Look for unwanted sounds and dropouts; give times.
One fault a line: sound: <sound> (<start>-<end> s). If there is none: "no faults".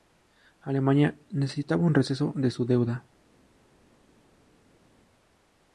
no faults